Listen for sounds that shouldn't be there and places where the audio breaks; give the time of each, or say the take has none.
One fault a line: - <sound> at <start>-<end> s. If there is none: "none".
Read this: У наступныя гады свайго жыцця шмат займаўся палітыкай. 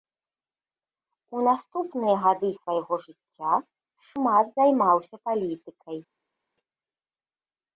none